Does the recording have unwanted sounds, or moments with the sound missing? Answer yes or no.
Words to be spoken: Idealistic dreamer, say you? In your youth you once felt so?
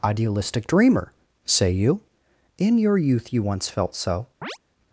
yes